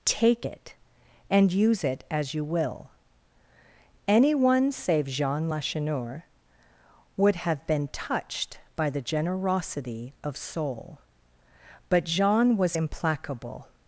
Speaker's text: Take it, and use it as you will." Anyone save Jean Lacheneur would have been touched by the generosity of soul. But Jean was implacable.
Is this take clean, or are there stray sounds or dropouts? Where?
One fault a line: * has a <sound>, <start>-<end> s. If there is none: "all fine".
all fine